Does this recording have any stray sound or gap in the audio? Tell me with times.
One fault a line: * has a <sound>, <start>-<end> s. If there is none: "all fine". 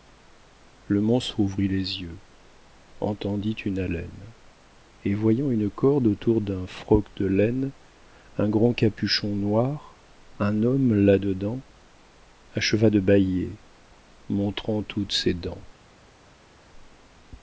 all fine